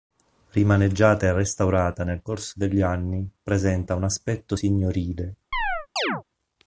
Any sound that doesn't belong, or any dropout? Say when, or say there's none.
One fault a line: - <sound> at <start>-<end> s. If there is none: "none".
- chirp at 5.5-6.2 s